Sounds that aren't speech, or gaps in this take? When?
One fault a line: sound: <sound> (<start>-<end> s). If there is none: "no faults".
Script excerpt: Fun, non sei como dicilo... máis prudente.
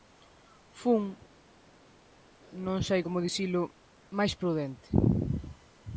no faults